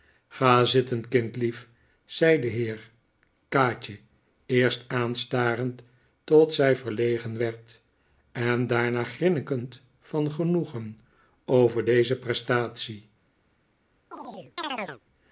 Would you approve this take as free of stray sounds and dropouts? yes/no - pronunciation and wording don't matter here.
no